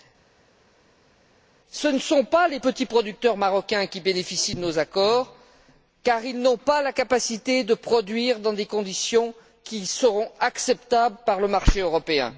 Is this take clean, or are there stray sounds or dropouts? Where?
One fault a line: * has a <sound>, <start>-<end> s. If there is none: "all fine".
all fine